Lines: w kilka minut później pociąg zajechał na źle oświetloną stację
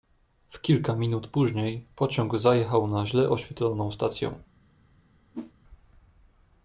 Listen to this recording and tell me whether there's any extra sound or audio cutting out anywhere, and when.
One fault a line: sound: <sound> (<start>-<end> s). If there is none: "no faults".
sound: whoosh (5.3-5.5 s)